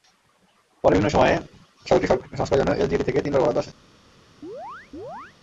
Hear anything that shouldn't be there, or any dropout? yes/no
yes